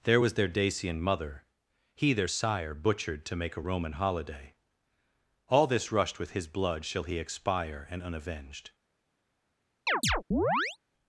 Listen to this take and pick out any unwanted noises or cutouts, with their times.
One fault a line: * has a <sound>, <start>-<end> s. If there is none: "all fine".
* has a chirp, 9.9-10.8 s